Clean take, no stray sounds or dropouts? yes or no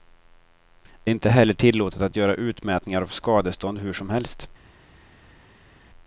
yes